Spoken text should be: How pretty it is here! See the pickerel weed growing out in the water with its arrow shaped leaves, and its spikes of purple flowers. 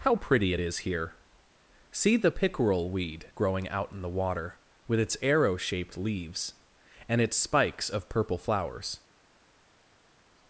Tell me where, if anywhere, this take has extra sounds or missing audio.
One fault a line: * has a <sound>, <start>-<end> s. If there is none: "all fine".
all fine